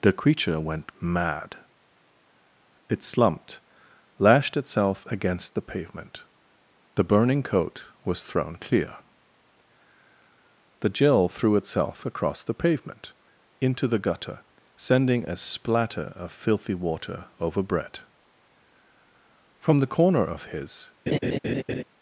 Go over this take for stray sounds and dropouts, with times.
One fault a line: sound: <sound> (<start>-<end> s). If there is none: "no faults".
sound: laugh (21.1-21.8 s)